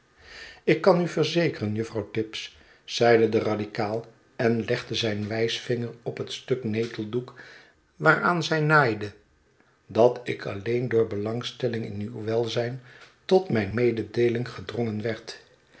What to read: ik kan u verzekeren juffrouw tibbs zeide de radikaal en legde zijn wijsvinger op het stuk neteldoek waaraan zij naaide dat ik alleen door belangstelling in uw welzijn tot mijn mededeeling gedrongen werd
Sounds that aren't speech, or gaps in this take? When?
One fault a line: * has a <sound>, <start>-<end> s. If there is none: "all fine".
all fine